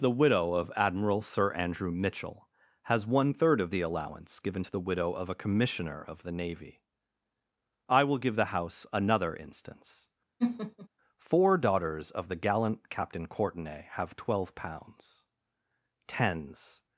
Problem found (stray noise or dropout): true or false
true